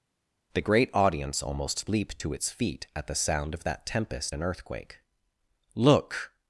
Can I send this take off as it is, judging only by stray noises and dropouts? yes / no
yes